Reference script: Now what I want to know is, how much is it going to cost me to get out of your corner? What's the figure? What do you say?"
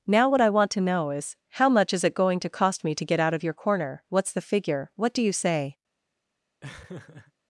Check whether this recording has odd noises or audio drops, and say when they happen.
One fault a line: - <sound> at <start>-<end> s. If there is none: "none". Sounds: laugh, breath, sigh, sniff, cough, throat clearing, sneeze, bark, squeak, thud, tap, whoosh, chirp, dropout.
- laugh at 6.6-7.3 s